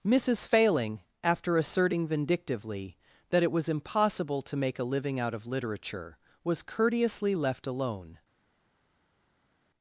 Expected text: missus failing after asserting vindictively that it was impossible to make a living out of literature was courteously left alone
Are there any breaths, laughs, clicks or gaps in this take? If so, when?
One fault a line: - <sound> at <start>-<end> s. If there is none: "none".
none